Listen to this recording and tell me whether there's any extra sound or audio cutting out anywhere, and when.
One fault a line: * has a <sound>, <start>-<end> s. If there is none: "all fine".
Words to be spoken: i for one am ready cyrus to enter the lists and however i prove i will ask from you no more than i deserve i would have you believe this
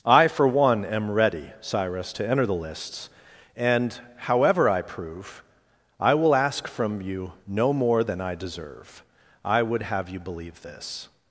all fine